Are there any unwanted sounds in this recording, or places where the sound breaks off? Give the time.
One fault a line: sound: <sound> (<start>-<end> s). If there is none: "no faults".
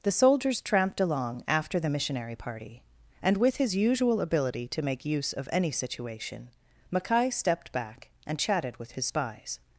no faults